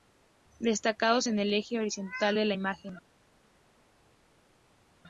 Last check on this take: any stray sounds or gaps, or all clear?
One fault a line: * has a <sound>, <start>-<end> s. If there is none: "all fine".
all fine